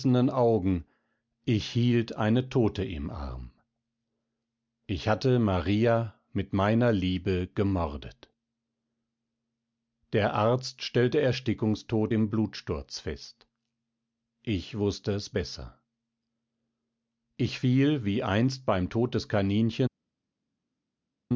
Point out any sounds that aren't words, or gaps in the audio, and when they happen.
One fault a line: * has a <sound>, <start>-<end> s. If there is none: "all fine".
all fine